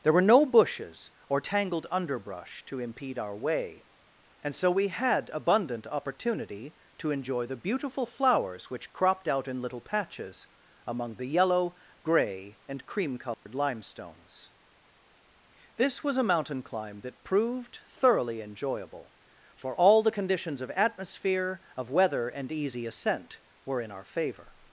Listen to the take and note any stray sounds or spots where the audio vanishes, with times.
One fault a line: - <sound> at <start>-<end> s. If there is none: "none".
- dropout at 13.3-13.5 s